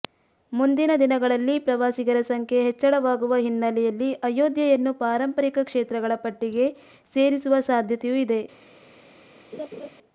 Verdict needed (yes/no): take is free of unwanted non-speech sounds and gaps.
no